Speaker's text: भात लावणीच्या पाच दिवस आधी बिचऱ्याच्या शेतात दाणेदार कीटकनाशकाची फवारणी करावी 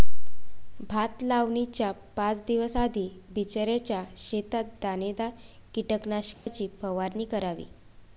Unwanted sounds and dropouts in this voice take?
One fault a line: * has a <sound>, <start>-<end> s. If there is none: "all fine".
* has a dropout, 6.3-6.5 s